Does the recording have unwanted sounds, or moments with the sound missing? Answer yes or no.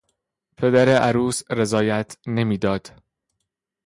no